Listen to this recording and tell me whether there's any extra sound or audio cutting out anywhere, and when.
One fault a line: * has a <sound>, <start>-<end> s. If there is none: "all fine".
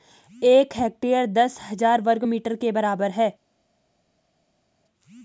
all fine